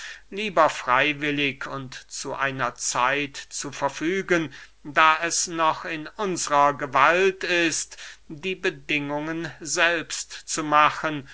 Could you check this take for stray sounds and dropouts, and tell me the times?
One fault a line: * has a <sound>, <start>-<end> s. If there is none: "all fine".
all fine